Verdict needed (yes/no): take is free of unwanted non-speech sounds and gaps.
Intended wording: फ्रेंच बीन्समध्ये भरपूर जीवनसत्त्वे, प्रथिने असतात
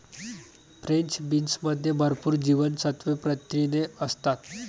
yes